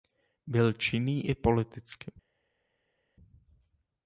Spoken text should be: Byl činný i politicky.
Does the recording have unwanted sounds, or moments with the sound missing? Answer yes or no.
no